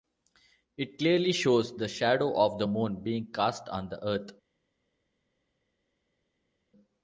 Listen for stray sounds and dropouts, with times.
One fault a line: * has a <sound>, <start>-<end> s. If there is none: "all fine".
all fine